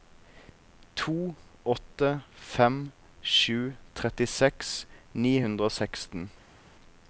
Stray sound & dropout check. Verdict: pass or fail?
pass